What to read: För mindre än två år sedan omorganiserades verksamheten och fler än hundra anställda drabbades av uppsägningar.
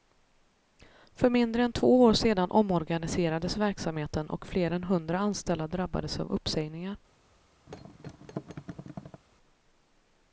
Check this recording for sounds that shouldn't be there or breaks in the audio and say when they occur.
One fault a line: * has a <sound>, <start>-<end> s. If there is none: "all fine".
* has a thud, 7.7-9.2 s